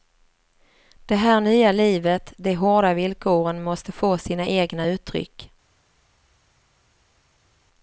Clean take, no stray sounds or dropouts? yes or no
yes